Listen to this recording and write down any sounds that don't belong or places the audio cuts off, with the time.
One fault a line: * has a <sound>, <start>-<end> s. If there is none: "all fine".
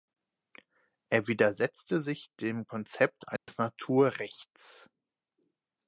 * has a dropout, 3.4-3.5 s